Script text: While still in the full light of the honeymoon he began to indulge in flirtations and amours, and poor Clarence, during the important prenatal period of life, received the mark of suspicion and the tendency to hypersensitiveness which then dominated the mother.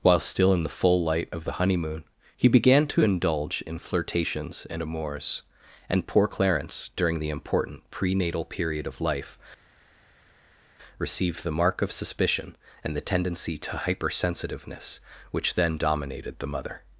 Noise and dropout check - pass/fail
pass